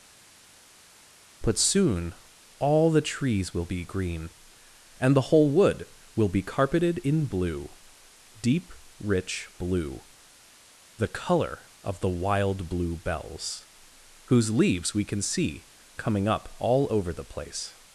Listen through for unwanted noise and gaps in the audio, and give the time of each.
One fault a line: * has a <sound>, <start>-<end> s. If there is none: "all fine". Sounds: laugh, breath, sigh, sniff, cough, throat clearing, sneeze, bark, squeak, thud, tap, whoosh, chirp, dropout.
all fine